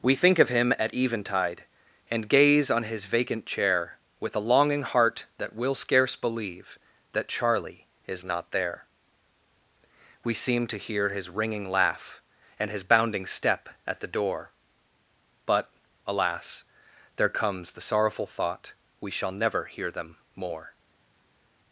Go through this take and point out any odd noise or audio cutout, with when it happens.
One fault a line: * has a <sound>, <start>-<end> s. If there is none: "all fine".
all fine